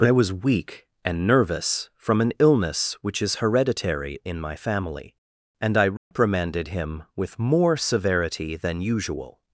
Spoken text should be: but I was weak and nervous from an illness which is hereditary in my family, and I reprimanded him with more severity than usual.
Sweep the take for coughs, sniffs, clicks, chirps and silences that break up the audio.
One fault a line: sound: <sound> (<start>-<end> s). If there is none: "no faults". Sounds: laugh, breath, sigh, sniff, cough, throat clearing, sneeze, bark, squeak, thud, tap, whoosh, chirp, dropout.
sound: dropout (6.0-6.1 s)